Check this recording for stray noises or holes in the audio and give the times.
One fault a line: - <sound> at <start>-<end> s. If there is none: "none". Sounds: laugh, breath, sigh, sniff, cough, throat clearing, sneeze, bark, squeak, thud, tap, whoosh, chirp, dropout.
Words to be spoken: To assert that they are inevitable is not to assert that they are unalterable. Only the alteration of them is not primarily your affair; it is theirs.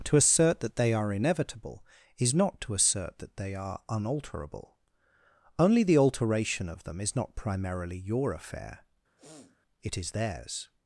- sniff at 9.2-9.6 s